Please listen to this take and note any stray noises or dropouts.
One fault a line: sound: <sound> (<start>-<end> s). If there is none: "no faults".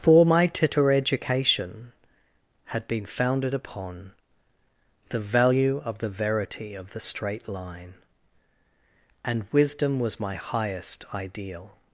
no faults